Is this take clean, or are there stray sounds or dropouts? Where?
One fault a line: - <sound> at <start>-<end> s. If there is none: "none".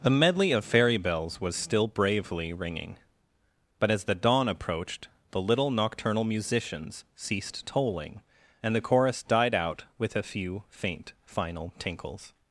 none